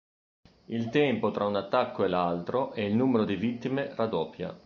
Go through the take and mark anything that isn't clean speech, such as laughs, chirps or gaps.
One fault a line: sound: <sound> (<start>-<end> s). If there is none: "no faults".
no faults